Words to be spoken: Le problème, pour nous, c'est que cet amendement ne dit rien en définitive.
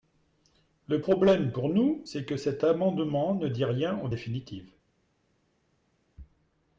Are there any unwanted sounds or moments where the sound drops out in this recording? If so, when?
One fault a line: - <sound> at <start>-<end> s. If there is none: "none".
none